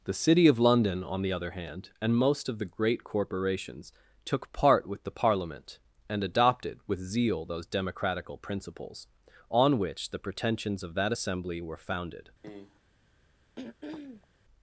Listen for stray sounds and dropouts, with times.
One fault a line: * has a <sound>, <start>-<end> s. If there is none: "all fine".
* has a cough, 12.4-12.8 s
* has a throat clearing, 13.6-14.3 s